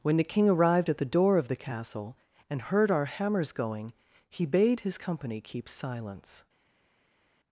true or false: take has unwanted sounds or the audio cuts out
false